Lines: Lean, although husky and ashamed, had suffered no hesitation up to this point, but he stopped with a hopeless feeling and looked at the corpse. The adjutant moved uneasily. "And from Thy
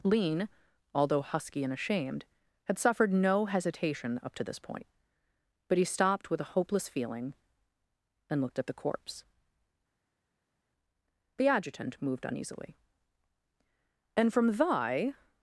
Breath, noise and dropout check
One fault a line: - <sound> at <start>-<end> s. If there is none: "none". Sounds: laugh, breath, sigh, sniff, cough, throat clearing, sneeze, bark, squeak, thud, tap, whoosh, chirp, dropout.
none